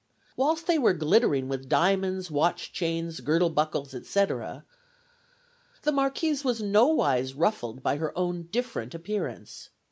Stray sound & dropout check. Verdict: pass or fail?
pass